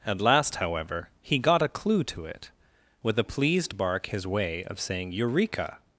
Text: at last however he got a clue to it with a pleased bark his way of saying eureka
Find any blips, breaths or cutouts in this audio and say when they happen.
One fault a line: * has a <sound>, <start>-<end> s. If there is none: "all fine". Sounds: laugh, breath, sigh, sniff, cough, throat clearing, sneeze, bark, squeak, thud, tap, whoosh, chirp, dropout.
all fine